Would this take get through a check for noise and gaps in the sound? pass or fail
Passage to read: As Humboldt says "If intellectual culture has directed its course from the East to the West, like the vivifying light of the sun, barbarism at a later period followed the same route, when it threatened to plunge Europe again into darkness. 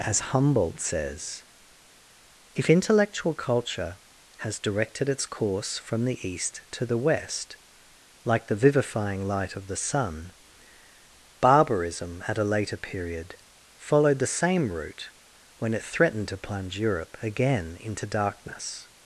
pass